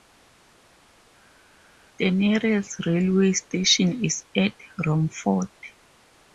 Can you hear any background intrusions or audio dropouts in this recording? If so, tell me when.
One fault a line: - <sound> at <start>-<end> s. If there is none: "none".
none